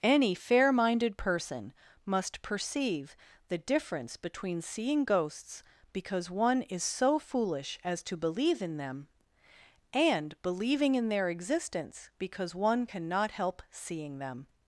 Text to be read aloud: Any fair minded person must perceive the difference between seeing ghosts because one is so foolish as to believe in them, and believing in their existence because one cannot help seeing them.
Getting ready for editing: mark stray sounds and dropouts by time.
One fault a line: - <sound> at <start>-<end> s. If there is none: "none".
none